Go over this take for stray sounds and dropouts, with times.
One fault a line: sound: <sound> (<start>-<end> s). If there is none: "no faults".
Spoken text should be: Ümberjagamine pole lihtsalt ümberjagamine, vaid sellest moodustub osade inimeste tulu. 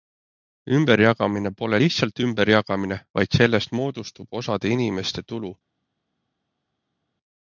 no faults